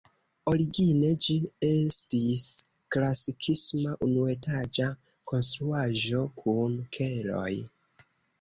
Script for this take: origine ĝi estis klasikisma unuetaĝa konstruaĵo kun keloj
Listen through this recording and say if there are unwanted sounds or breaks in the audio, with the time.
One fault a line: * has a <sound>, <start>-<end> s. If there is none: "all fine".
all fine